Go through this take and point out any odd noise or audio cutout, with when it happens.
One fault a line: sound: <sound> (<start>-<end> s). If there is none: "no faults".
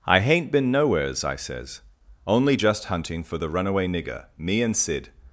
no faults